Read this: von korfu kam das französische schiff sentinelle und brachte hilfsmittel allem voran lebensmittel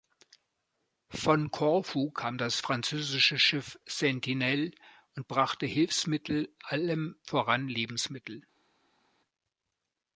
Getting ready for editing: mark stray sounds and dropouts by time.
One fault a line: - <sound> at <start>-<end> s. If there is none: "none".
none